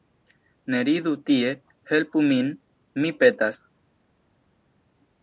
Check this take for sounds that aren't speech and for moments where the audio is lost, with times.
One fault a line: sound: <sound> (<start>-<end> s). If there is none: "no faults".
no faults